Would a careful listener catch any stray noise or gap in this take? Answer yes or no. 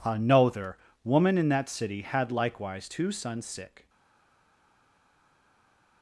no